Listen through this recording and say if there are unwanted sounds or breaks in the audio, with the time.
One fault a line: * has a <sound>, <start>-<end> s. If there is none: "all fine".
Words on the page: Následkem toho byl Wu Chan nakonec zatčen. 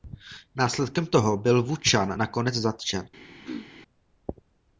* has a throat clearing, 3.4-3.7 s